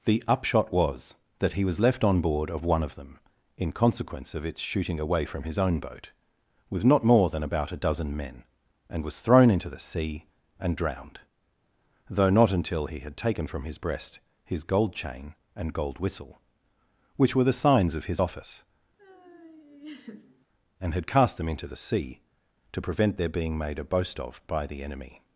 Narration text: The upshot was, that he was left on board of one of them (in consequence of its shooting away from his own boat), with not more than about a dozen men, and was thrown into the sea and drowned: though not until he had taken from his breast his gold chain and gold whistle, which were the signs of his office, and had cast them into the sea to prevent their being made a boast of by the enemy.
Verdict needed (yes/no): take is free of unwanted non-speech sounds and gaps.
no